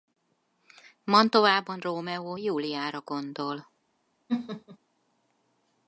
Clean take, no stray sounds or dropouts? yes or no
no